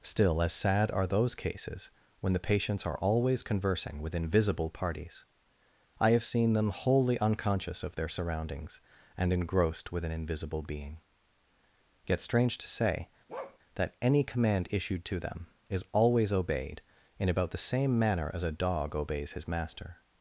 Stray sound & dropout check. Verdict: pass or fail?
fail